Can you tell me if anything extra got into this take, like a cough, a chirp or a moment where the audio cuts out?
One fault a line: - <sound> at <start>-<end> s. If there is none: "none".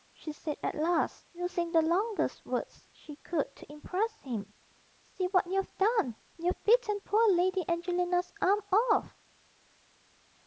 none